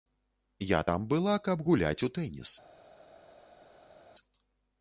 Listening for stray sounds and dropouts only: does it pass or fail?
pass